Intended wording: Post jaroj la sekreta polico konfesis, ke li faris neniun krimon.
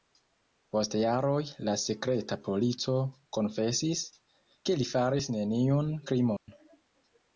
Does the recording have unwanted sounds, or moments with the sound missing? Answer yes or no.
yes